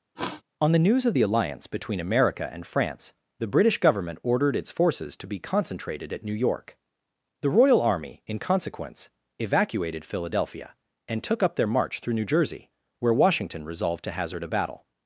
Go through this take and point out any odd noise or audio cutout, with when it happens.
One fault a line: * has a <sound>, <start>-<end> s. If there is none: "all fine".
* has a sniff, 0.1-0.4 s